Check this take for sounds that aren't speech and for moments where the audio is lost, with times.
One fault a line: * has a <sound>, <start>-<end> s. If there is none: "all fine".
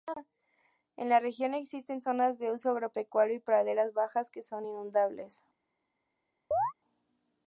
* has a chirp, 6.5-6.7 s